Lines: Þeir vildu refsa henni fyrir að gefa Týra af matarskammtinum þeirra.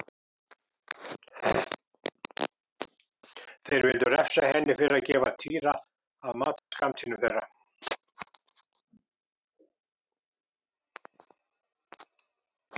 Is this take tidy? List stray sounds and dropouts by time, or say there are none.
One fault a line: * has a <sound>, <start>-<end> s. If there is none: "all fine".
* has a dropout, 6.6-6.7 s